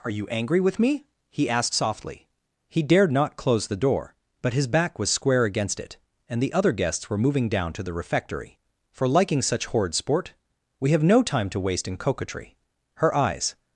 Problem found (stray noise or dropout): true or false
false